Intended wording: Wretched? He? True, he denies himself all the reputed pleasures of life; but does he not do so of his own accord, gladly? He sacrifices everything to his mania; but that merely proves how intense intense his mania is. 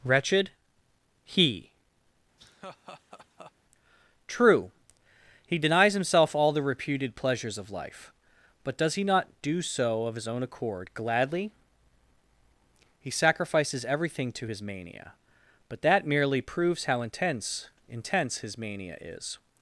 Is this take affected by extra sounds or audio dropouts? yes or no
yes